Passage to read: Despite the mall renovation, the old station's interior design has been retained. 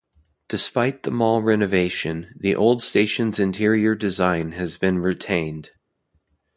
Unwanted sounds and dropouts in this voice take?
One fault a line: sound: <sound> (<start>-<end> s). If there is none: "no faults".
no faults